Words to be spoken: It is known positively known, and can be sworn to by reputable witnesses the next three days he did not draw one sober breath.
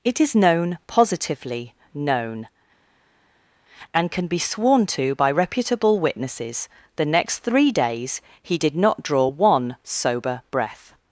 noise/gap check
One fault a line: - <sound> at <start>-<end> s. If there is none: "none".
none